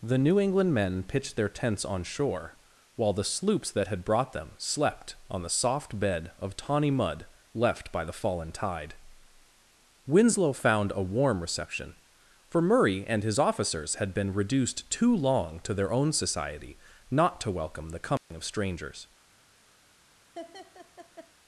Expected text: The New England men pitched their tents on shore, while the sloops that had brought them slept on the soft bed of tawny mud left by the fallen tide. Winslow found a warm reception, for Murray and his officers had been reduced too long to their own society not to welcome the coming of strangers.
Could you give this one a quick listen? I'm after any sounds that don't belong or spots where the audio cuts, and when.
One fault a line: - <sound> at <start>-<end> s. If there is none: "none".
- dropout at 18.2-18.3 s
- laugh at 20.4-21.3 s